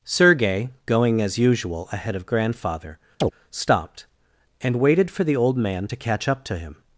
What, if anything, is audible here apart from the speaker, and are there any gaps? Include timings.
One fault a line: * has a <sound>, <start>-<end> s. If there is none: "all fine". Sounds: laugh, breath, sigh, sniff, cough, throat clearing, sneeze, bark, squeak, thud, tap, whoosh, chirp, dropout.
* has a chirp, 3.2-3.3 s